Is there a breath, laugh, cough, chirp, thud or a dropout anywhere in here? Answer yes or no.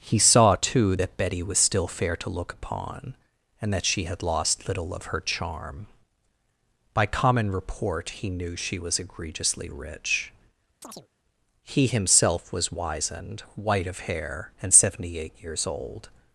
yes